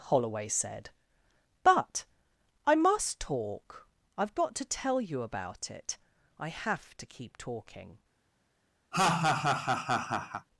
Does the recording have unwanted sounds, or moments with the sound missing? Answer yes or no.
yes